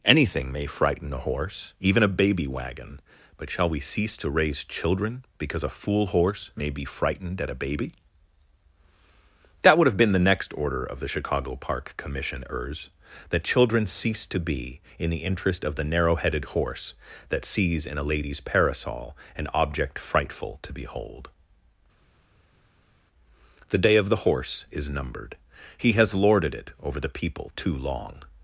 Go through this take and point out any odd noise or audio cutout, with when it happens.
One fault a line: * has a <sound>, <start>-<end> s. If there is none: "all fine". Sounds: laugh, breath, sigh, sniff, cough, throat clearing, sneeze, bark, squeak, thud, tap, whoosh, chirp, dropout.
all fine